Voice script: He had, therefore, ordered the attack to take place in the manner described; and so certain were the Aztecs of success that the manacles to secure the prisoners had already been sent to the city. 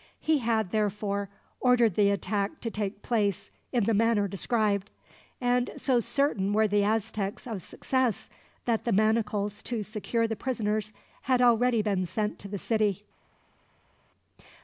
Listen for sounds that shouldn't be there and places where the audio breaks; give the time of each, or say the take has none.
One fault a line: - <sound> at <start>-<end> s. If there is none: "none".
none